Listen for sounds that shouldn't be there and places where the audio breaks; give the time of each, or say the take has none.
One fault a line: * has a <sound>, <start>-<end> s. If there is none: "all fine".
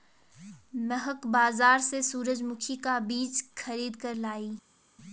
all fine